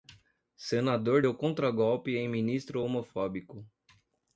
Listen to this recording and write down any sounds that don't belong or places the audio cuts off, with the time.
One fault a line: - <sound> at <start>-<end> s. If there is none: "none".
none